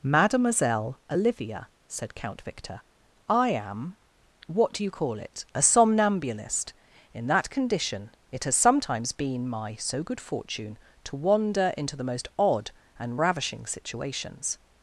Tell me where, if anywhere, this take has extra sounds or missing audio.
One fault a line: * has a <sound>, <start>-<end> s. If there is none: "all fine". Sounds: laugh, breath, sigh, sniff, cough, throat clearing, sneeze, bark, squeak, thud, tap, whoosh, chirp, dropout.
all fine